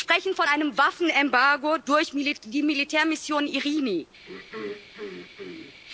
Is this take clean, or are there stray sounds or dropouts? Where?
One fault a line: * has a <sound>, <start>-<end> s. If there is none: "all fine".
* has a throat clearing, 4.2-5.8 s